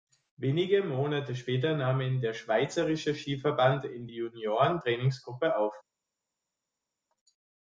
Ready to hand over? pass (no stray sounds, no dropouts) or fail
pass